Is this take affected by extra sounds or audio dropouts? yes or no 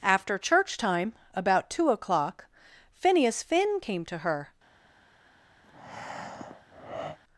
yes